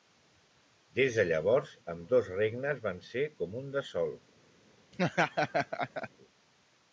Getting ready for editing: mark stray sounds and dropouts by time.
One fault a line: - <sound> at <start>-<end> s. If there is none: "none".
- laugh at 4.9-6.1 s